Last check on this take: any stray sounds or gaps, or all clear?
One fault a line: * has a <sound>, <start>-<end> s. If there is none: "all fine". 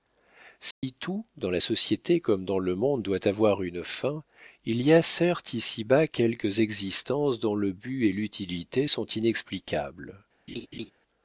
* has a dropout, 0.7-0.8 s
* has a laugh, 10.5-10.9 s